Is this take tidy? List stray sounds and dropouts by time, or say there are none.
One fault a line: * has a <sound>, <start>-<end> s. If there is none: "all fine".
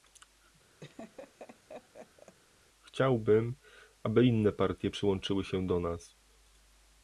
* has a laugh, 0.8-2.4 s